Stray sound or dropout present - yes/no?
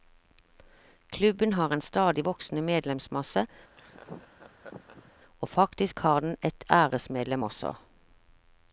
yes